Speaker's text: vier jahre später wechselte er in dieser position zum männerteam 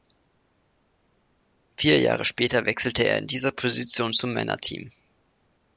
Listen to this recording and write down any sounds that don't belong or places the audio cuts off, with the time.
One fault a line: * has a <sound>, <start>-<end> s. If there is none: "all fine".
all fine